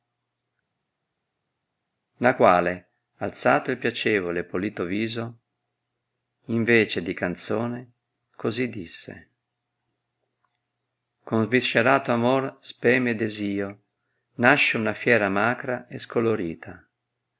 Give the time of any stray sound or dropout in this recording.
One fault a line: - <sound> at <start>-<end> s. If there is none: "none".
none